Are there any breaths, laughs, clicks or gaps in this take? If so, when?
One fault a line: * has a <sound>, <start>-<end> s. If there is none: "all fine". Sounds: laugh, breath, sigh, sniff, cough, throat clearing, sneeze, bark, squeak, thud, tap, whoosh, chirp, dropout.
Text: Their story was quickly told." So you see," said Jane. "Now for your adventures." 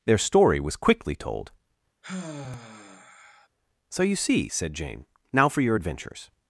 * has a sigh, 2.0-3.5 s